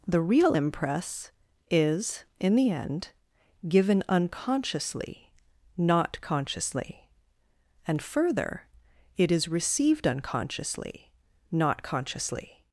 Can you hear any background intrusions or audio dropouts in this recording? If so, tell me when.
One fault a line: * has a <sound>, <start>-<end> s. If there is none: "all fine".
all fine